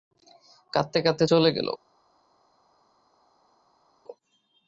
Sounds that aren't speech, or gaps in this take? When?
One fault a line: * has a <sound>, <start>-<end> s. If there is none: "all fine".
all fine